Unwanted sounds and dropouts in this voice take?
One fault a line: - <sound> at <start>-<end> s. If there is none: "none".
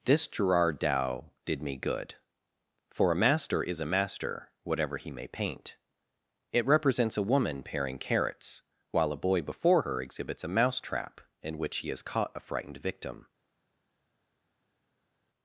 none